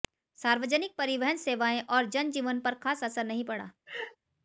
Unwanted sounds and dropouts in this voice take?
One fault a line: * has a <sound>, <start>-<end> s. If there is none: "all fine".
* has a laugh, 3.9-4.2 s